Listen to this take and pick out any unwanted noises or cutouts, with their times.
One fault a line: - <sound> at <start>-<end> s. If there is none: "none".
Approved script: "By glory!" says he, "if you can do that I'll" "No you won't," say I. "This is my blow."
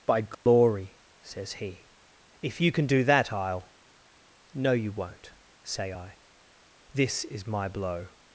- dropout at 0.3-0.5 s